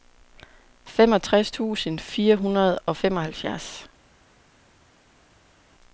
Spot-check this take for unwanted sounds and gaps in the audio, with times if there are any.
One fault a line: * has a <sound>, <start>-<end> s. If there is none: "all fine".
all fine